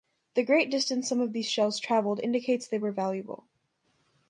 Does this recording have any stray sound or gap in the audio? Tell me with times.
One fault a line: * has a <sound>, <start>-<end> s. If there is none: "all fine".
all fine